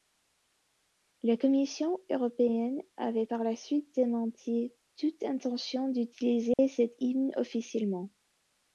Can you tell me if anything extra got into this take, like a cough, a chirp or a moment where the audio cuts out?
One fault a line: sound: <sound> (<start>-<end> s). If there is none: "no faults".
sound: dropout (6.5-6.6 s)